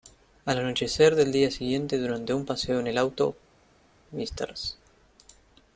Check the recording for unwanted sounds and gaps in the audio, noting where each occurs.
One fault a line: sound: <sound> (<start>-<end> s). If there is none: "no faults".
no faults